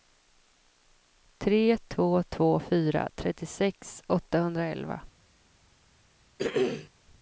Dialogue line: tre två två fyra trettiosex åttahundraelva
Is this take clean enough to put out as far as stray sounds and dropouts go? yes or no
no